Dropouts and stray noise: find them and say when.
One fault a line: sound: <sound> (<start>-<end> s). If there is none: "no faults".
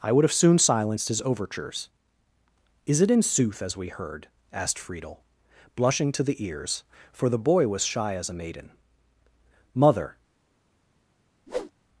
sound: whoosh (11.5-11.7 s)